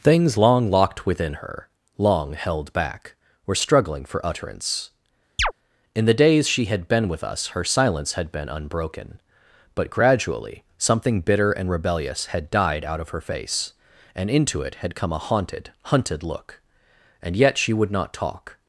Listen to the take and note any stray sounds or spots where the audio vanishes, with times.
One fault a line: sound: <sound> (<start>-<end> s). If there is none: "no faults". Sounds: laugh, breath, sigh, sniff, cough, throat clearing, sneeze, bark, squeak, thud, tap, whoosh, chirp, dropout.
sound: chirp (5.4-5.5 s)